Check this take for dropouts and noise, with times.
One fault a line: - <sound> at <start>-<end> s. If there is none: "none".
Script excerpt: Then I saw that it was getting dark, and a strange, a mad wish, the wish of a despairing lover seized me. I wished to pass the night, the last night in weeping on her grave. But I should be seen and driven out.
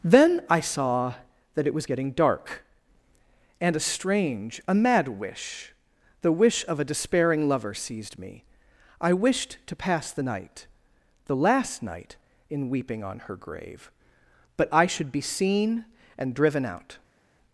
none